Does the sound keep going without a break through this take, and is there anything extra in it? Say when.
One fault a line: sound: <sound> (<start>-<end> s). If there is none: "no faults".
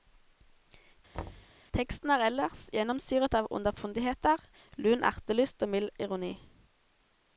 sound: thud (1.1-1.5 s)